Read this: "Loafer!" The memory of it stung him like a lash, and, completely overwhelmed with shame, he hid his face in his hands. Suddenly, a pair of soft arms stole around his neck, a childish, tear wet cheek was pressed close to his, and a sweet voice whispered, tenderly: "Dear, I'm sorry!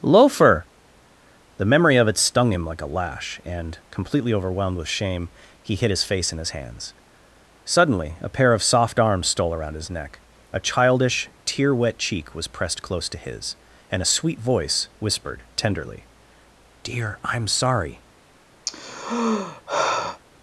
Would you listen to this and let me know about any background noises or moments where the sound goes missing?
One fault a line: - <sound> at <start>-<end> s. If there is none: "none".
- sigh at 18.7-20.2 s